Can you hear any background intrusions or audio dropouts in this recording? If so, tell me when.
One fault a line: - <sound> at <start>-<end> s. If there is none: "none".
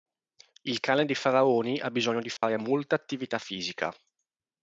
- dropout at 2.4-2.4 s